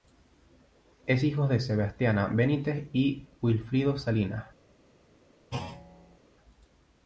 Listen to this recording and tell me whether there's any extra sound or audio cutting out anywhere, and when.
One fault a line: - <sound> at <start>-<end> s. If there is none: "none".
- thud at 5.5-6.2 s